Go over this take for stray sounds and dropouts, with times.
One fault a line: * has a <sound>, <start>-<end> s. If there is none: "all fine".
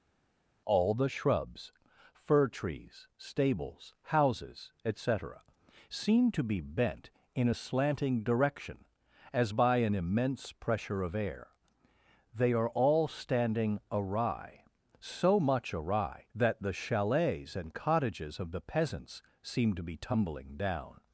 all fine